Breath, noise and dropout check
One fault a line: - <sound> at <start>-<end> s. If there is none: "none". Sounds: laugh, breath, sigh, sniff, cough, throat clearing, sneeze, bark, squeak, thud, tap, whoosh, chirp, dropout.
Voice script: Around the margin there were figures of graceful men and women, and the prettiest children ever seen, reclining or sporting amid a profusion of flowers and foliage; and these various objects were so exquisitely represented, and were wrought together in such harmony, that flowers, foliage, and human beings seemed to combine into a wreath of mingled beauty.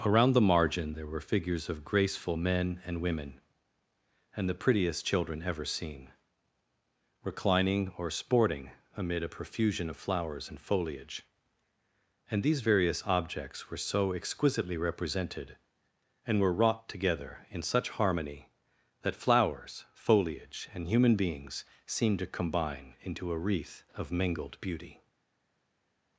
none